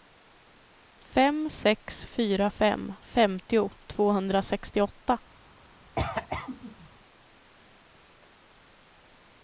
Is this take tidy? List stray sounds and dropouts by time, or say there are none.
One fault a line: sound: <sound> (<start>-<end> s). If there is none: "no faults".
sound: cough (6.0-6.9 s)